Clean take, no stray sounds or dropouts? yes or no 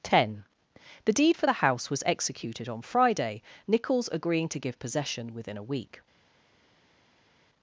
yes